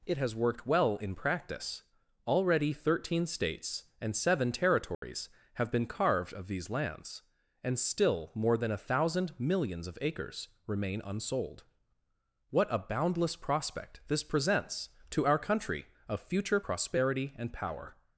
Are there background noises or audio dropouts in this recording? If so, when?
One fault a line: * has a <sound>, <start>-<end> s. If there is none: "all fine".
* has a dropout, 4.9-5.0 s